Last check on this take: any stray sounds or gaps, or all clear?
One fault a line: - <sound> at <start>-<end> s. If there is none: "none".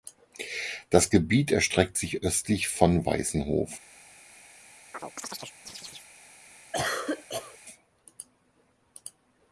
- chirp at 4.9-6.1 s
- cough at 6.7-7.6 s